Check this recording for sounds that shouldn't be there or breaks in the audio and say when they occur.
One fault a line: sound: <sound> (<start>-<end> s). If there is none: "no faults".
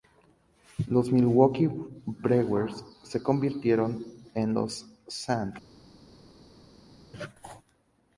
no faults